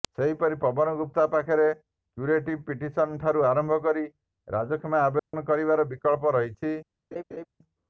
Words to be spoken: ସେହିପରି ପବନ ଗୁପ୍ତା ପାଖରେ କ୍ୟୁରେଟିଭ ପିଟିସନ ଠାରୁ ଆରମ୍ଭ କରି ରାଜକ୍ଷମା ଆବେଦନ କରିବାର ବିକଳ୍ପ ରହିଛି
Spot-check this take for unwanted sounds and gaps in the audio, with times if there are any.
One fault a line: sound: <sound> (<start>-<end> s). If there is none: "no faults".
sound: dropout (5.2-5.3 s)
sound: laugh (7.1-7.5 s)